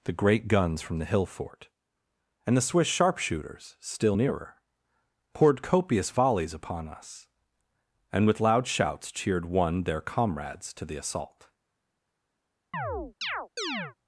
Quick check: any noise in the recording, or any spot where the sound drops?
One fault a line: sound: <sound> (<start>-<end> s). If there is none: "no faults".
sound: chirp (12.7-14.0 s)